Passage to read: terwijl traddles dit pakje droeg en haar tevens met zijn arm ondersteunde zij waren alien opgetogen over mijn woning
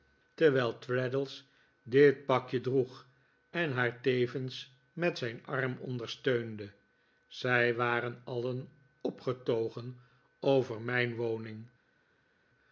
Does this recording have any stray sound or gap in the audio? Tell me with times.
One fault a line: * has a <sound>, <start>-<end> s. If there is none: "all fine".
all fine